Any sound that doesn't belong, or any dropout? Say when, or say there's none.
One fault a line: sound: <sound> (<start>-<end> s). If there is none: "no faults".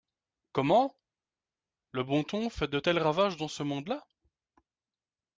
no faults